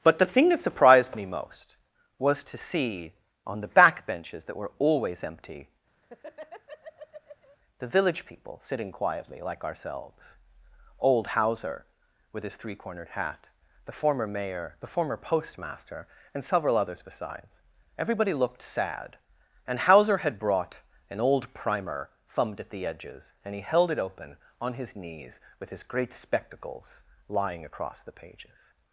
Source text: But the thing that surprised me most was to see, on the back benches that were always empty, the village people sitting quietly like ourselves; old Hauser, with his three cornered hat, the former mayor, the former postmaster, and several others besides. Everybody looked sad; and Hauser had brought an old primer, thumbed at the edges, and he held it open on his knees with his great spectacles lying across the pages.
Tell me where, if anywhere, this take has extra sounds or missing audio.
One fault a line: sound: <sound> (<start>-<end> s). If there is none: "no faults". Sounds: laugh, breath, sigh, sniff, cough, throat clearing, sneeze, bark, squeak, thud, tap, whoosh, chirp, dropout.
sound: laugh (6.0-7.6 s)